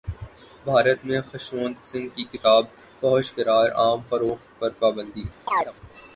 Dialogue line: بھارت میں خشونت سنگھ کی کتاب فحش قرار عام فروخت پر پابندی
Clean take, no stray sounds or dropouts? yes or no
no